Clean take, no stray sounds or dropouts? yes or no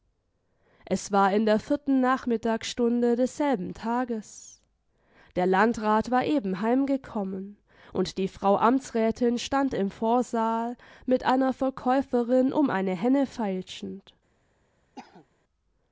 no